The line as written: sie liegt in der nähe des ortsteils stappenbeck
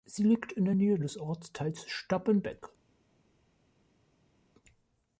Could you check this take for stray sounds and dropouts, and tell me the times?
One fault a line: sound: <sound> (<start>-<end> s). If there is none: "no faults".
no faults